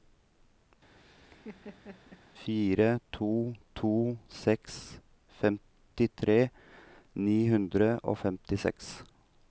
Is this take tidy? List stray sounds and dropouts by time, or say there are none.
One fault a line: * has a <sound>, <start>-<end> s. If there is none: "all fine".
* has a laugh, 1.0-2.2 s